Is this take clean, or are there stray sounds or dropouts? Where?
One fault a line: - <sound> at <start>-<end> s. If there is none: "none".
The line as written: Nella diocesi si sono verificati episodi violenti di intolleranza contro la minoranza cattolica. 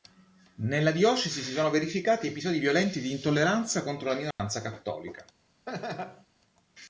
- dropout at 4.3-4.4 s
- laugh at 5.7-6.3 s